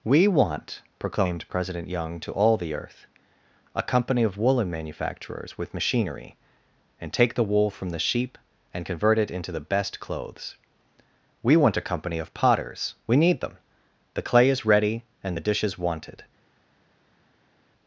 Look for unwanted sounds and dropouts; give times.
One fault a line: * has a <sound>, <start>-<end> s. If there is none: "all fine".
all fine